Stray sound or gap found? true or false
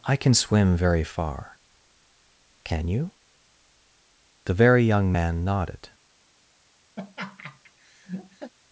true